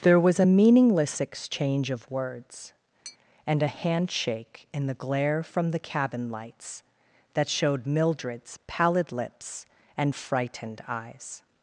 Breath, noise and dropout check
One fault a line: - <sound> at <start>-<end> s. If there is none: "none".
- tap at 3.0-3.2 s